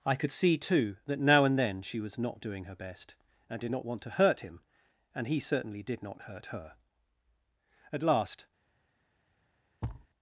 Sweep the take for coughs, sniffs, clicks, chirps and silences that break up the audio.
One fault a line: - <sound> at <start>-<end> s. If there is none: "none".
- thud at 9.8-10.1 s